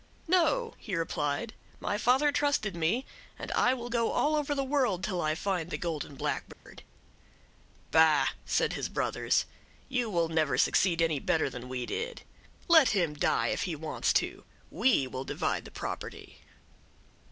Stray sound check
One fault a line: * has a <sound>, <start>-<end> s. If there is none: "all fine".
* has a dropout, 6.5-6.7 s